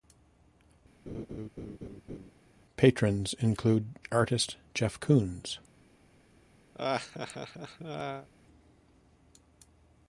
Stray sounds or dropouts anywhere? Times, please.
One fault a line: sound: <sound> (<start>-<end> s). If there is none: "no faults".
sound: laugh (1.1-2.3 s)
sound: laugh (6.7-8.3 s)